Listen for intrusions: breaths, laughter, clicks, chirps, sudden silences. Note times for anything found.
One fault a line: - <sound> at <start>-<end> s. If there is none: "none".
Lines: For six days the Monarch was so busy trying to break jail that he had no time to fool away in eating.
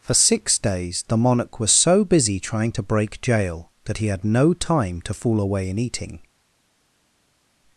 none